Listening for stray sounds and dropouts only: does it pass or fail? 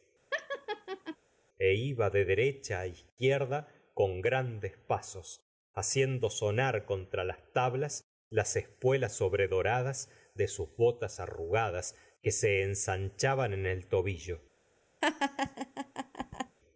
fail